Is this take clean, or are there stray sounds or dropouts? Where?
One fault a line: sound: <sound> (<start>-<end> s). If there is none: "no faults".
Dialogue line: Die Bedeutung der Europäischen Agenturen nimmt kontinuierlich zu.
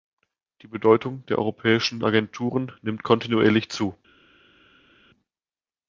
no faults